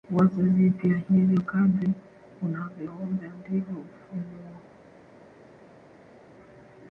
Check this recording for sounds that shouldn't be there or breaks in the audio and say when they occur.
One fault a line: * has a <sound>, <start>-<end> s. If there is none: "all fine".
all fine